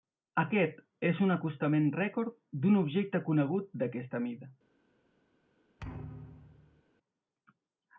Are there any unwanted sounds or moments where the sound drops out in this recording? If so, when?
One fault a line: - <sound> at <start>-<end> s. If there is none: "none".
- thud at 5.8-6.8 s